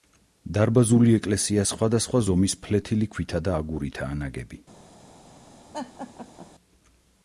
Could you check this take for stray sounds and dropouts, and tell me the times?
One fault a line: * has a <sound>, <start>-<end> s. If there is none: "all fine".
* has a laugh, 5.7-6.5 s